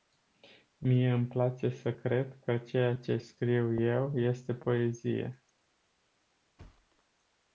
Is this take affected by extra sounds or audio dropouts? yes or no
yes